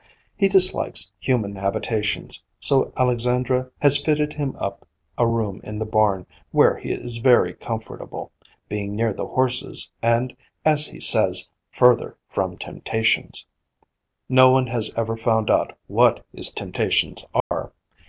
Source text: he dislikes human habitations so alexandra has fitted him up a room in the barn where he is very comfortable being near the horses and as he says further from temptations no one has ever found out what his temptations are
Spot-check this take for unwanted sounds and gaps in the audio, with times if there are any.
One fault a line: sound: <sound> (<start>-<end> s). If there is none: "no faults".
sound: dropout (17.4-17.5 s)